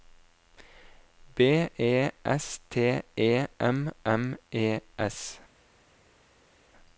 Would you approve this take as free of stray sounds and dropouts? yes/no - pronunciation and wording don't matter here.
yes